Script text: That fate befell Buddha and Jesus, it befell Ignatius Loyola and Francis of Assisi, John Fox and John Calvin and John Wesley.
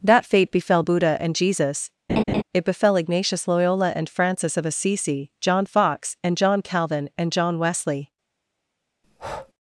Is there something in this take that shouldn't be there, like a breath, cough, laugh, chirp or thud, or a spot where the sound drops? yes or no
yes